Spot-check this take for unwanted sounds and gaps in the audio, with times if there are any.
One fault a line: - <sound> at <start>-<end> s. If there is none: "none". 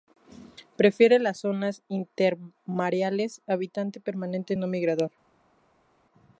none